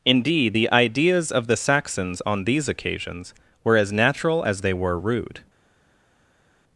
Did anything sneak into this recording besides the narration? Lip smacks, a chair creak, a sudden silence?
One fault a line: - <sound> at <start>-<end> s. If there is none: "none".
none